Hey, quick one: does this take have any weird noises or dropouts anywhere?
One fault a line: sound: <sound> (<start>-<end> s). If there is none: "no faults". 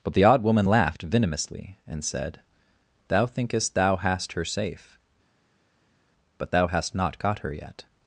no faults